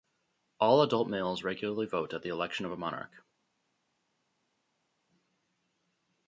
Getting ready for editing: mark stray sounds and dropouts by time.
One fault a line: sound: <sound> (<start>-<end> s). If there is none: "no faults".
no faults